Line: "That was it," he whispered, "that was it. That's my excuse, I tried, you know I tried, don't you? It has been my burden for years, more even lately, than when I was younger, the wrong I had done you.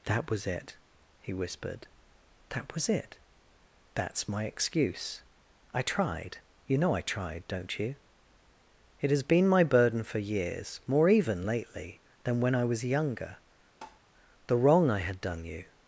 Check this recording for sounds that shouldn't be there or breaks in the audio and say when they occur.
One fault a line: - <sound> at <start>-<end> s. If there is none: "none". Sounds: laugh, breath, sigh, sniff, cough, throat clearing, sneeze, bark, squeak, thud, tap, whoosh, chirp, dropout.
- tap at 13.8-14.0 s